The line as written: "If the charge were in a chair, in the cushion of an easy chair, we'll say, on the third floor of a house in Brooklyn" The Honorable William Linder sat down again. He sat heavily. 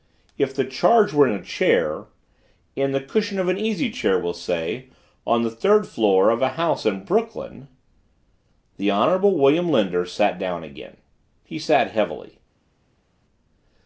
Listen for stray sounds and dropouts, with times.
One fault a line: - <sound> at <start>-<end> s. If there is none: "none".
none